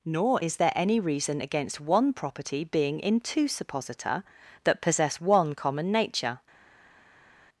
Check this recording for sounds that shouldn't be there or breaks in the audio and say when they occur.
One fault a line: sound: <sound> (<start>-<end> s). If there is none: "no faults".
no faults